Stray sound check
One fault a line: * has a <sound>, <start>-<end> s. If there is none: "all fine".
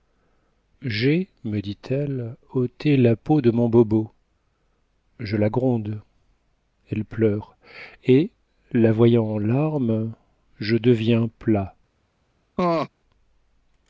* has a laugh, 12.6-12.9 s